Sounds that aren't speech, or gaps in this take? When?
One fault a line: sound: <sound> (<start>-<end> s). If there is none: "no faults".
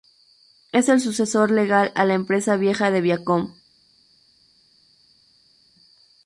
no faults